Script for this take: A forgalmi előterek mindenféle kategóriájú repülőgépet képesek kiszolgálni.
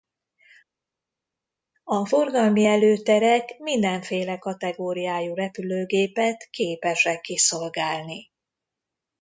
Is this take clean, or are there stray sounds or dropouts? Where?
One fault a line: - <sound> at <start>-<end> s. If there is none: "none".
none